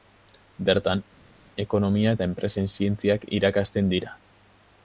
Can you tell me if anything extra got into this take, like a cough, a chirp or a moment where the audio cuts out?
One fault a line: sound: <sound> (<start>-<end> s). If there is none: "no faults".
no faults